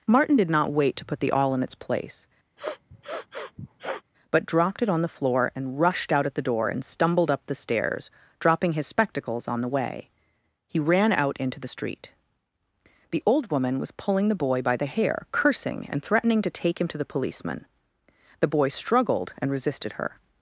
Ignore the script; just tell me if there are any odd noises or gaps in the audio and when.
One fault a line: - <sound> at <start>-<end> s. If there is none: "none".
- sniff at 2.6-4.0 s